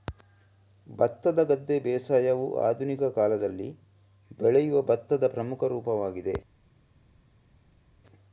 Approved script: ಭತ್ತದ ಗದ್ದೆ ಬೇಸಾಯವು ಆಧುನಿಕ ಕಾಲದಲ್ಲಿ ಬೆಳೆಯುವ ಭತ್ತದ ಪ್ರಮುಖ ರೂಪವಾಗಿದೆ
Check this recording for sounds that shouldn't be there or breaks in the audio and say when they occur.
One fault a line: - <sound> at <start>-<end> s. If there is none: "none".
none